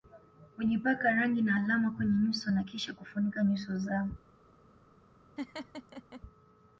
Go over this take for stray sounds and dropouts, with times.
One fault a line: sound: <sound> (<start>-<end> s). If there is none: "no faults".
sound: laugh (5.4-6.2 s)